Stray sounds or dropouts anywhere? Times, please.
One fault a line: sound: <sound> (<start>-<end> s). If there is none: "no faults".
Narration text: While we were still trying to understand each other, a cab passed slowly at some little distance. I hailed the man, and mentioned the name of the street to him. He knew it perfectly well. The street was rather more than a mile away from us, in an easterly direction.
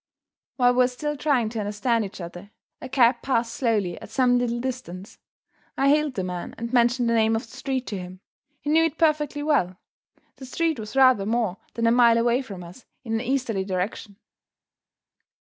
no faults